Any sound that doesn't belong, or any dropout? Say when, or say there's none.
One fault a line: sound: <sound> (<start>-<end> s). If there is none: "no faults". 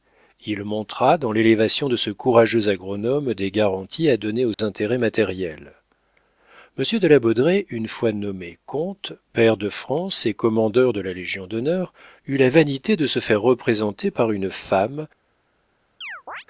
sound: dropout (4.5-4.6 s)
sound: chirp (16.0-16.4 s)